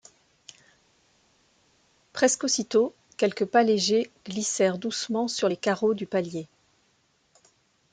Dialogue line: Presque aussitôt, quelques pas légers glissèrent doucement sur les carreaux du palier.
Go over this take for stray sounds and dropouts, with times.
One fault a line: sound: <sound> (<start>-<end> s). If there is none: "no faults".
no faults